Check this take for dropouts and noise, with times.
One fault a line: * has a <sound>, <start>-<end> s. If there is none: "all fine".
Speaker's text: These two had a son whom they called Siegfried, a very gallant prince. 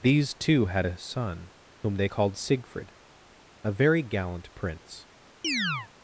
* has a chirp, 5.4-5.9 s